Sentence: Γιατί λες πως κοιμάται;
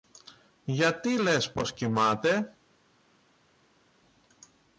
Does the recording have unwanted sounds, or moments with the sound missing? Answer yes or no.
no